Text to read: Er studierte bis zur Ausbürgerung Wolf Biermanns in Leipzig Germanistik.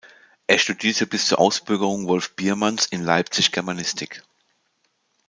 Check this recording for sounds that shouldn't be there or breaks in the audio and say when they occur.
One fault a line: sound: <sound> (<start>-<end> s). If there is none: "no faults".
no faults